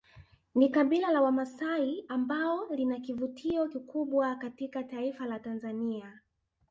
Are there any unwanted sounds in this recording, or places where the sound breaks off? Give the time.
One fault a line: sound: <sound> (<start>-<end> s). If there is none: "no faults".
no faults